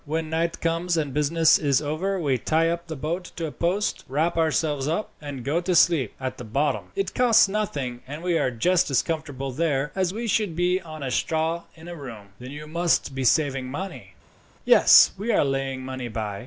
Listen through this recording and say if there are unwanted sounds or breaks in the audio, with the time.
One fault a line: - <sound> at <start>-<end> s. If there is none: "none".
none